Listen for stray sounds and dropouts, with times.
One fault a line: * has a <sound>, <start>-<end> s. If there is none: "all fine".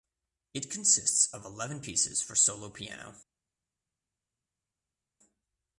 all fine